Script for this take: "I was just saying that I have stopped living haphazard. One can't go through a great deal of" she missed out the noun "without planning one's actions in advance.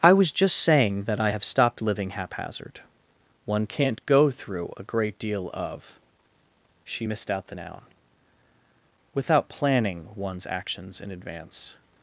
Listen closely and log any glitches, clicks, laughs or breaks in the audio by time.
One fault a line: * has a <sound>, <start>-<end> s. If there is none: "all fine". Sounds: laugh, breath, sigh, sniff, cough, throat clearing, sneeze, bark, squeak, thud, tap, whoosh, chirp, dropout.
all fine